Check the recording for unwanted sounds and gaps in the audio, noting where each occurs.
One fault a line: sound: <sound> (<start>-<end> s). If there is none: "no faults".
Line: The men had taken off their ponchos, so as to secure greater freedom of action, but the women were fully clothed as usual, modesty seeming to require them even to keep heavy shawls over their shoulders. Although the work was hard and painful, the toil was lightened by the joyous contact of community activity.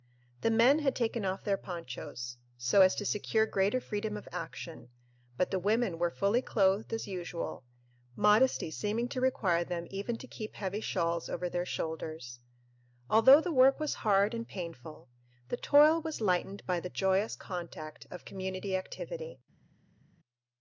no faults